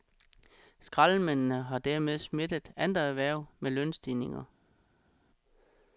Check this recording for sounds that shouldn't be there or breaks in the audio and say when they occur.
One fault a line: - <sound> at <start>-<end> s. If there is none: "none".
none